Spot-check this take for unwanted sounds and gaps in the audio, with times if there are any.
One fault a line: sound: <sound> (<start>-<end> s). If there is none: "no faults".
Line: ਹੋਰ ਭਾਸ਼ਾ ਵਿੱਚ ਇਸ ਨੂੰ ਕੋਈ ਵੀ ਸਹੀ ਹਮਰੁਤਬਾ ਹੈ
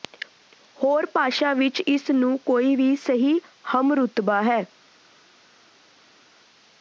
no faults